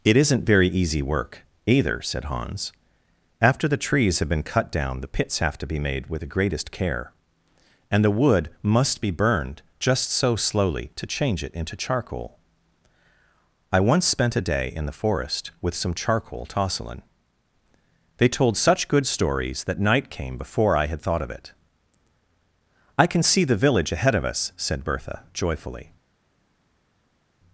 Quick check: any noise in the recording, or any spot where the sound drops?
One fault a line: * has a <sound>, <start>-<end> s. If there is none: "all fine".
all fine